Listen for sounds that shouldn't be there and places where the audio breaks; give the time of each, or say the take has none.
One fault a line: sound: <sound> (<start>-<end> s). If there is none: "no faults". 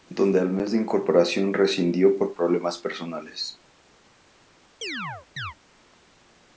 sound: chirp (4.8-5.5 s)